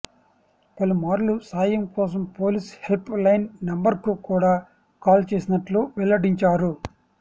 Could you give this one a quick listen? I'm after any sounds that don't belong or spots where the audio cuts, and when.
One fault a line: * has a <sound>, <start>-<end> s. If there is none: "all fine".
all fine